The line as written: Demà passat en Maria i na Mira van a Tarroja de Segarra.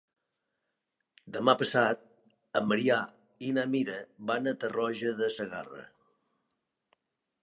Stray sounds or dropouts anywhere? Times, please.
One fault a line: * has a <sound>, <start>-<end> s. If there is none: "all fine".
all fine